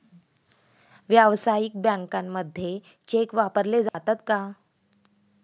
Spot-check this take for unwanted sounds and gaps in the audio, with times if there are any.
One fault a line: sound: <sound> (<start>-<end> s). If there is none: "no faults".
sound: dropout (3.9-3.9 s)